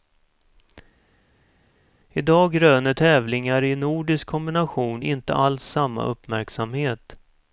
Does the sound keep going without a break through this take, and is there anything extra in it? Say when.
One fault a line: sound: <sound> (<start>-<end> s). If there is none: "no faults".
no faults